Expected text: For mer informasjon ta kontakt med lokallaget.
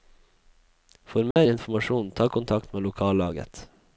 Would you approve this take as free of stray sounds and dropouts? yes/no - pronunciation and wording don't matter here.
no